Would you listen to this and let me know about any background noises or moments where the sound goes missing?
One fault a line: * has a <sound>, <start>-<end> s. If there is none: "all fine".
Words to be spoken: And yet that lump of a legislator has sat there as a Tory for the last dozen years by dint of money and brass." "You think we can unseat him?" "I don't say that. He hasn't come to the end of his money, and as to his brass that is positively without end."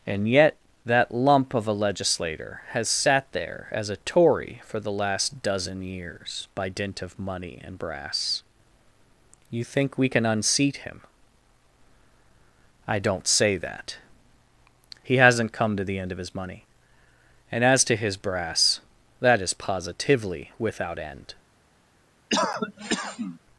* has a cough, 22.3-23.4 s